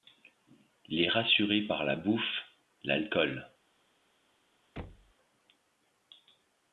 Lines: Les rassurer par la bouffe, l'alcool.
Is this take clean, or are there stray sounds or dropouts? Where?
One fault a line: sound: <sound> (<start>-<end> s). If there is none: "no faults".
sound: thud (4.8-5.1 s)